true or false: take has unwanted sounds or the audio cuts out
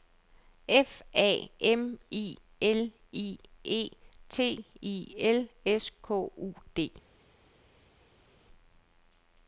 false